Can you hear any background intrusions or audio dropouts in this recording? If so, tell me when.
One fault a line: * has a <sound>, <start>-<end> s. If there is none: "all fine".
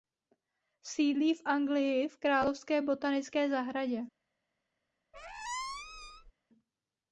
* has a squeak, 5.1-6.3 s